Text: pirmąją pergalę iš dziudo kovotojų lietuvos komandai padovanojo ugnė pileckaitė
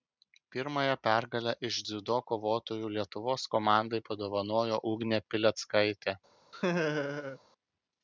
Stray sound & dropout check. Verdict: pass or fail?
fail